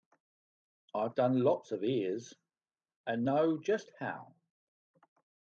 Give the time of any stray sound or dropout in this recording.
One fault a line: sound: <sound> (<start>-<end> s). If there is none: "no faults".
no faults